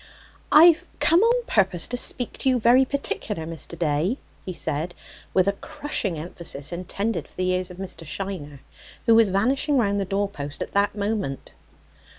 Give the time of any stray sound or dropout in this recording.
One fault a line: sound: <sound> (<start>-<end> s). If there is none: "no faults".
no faults